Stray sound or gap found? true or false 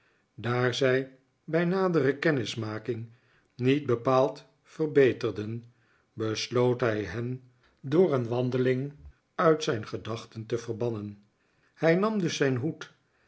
false